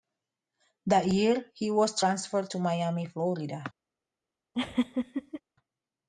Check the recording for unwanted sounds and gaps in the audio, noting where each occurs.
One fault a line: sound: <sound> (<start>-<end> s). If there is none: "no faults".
sound: laugh (4.5-5.4 s)